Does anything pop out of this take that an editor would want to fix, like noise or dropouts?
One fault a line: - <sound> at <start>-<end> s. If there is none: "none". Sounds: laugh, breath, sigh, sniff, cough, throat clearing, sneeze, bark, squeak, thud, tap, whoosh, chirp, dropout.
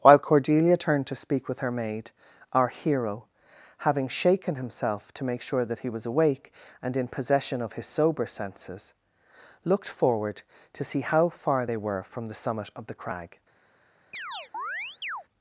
- chirp at 14.1-15.2 s